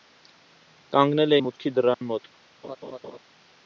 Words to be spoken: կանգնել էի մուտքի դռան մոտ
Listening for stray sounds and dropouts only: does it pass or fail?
fail